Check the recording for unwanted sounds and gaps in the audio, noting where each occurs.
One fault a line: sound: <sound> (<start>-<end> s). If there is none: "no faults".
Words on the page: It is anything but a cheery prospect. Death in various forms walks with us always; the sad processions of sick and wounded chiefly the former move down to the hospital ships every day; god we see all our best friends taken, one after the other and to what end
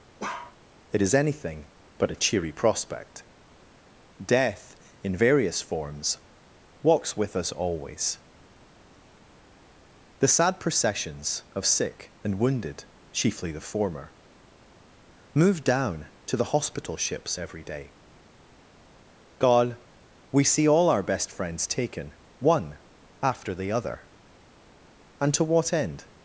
sound: bark (0.2-0.6 s)